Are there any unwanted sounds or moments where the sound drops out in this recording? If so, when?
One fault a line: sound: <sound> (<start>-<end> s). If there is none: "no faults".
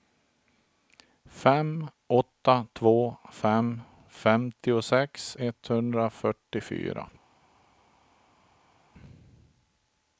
no faults